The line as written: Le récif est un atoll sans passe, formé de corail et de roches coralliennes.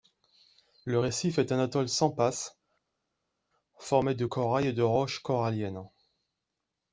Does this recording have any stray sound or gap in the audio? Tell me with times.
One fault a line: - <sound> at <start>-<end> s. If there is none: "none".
none